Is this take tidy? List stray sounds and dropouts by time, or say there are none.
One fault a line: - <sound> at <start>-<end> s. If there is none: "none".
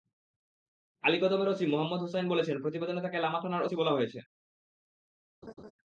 - laugh at 5.4-5.7 s